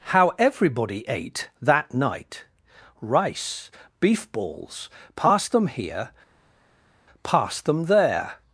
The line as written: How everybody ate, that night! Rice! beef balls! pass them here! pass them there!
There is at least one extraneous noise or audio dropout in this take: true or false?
false